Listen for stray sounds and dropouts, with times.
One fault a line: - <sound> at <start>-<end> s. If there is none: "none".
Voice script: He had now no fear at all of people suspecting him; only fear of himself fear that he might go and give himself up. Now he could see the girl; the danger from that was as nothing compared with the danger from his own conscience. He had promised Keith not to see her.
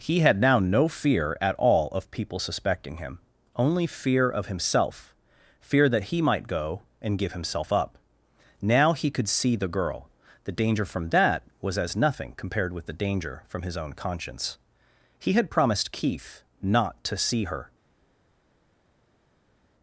none